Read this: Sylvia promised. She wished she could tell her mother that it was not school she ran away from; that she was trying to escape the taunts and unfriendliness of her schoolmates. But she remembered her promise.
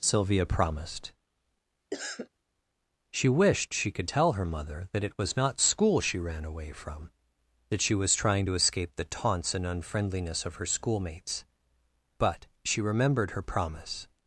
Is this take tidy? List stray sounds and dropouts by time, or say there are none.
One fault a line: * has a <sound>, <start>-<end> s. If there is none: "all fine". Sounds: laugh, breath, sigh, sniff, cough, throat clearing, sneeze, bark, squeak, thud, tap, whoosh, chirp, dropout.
* has a cough, 1.9-2.3 s